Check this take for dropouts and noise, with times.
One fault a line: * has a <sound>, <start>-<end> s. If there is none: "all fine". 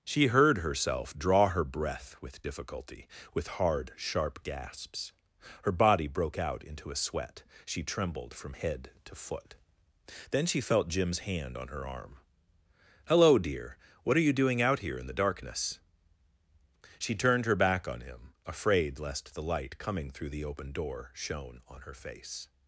all fine